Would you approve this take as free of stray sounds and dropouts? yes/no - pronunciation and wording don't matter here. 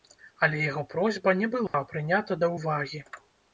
no